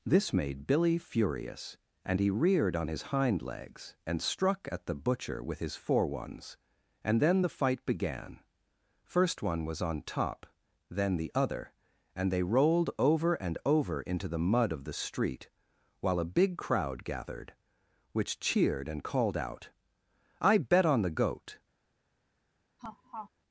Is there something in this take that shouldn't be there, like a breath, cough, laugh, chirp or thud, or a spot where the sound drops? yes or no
yes